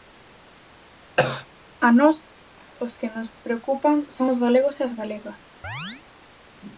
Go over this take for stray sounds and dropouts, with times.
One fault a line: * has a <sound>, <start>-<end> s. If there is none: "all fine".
* has a cough, 1.2-1.5 s
* has a chirp, 5.6-6.0 s